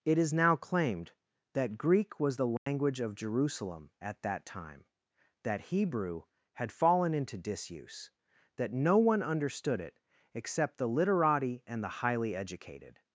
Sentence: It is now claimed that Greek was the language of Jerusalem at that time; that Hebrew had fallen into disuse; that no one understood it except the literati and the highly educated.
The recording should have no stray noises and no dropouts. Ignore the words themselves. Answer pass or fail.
fail